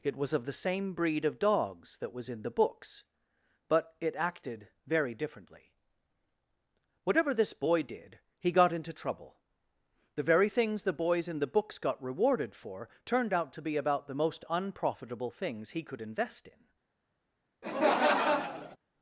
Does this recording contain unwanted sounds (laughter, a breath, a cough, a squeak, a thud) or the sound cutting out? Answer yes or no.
yes